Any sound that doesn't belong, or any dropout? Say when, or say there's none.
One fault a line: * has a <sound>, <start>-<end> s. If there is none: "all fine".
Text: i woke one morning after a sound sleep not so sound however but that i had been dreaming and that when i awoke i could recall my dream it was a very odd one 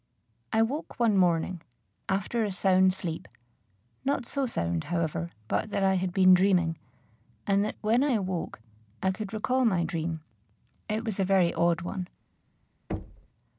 * has a thud, 12.9-13.3 s